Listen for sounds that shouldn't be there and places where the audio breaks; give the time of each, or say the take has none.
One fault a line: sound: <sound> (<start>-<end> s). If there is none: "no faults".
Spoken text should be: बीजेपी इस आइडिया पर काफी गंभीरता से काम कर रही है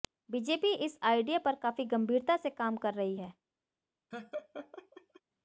sound: laugh (4.1-5.2 s)